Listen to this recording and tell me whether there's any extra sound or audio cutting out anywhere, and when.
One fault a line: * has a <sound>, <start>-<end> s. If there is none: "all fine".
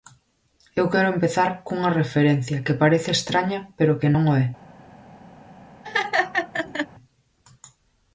* has a laugh, 5.8-6.9 s